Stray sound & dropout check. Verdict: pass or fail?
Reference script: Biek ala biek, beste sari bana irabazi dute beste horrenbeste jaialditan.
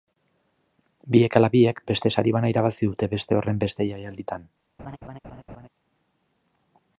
fail